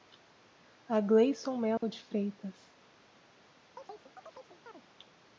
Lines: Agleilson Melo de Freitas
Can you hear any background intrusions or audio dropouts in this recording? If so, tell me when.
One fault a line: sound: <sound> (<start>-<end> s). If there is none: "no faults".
sound: dropout (1.8-1.8 s)
sound: chirp (3.8-4.9 s)